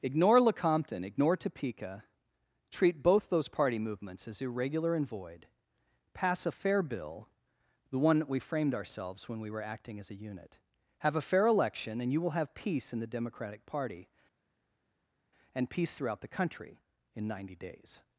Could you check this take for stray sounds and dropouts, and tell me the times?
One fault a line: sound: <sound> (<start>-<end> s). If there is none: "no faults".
no faults